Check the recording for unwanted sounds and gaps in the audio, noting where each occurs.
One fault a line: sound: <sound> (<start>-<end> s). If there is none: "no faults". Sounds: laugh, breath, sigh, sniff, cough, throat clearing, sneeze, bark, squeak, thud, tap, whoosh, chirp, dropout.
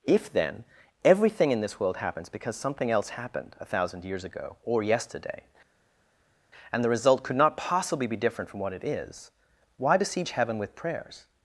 no faults